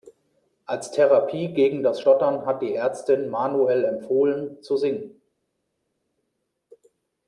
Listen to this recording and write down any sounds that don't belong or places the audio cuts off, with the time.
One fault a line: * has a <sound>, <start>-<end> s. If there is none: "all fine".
all fine